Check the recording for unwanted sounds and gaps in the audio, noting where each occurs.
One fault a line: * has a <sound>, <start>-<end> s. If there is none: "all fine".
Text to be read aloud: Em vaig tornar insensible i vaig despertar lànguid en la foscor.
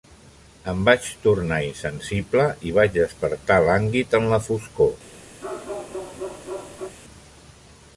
* has a bark, 5.4-6.9 s